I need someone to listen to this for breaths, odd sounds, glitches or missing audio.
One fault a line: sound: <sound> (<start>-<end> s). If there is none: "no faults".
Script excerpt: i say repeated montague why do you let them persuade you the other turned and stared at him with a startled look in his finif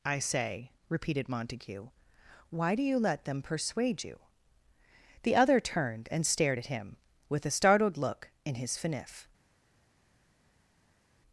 no faults